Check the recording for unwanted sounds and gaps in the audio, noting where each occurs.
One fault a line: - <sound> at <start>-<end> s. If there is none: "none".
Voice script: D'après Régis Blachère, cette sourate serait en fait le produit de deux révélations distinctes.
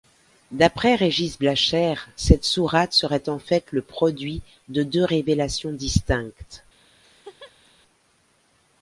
- laugh at 7.0-7.7 s